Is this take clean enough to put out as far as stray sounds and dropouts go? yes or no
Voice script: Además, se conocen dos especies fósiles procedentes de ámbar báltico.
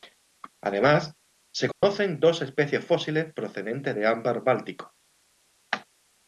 no